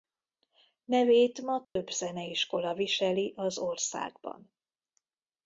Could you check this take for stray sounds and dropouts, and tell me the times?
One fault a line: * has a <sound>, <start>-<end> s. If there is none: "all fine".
* has a dropout, 1.6-1.8 s